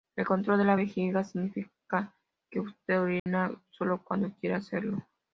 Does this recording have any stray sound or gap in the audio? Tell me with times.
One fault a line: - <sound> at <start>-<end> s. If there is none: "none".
- dropout at 3.2-3.3 s